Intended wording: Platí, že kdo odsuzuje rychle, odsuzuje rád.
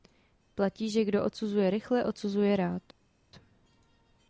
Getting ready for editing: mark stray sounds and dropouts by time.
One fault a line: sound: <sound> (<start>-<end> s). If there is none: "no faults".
no faults